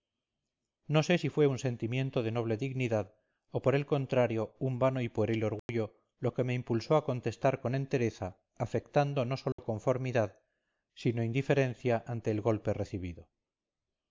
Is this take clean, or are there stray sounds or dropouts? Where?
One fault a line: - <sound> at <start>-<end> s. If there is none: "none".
- dropout at 5.6-5.7 s
- dropout at 9.5-9.6 s